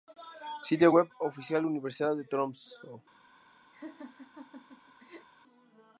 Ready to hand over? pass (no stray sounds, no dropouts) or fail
fail